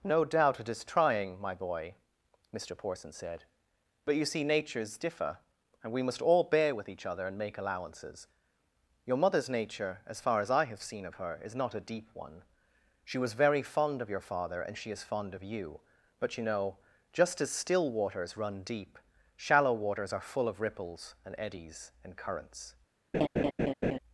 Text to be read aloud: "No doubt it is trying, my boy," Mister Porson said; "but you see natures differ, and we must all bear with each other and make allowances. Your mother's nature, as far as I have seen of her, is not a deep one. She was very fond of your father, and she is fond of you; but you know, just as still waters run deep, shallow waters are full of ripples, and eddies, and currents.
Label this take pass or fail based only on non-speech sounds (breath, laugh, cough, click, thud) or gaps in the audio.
fail